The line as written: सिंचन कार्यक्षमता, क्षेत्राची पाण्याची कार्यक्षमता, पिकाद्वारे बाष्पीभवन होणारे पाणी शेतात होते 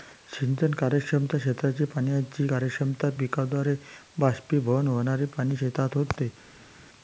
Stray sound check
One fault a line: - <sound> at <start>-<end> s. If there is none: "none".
none